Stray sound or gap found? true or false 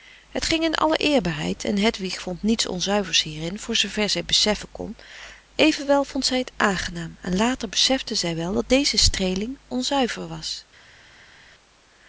false